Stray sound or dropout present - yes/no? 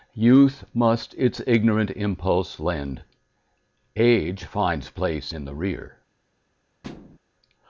yes